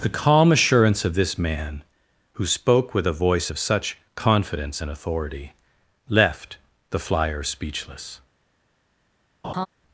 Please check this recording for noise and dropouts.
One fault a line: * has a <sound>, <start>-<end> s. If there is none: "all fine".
* has a laugh, 9.4-9.7 s